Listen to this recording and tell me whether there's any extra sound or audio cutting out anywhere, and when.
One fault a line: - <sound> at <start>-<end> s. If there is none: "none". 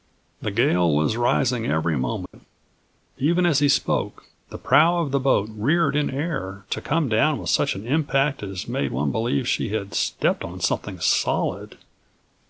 - dropout at 2.3-2.3 s